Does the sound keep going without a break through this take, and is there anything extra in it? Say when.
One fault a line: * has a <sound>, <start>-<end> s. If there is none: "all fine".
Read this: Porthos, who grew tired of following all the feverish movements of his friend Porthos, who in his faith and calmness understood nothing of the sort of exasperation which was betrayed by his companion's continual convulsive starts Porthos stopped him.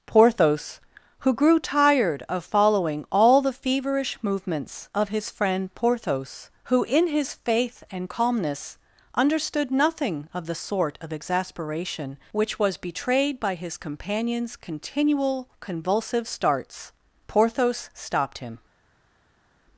all fine